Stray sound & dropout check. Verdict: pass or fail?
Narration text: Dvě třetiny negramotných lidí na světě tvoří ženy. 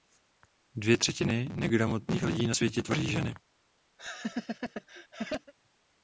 fail